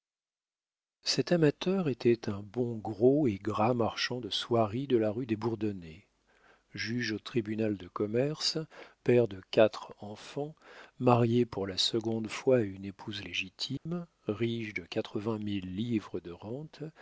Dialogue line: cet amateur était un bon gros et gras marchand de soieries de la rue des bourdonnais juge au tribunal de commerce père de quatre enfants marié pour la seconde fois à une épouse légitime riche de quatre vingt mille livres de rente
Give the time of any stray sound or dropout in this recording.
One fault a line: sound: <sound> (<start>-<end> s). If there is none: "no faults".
sound: dropout (13.8-13.9 s)